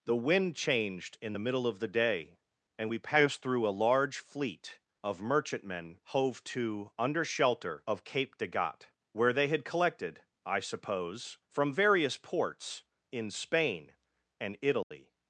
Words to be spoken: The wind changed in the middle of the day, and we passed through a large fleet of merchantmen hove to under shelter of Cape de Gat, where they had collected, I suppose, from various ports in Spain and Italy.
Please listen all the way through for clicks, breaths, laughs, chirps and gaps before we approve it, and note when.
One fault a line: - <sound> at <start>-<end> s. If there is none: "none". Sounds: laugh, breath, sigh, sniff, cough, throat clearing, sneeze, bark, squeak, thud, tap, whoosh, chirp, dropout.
- dropout at 14.8-14.9 s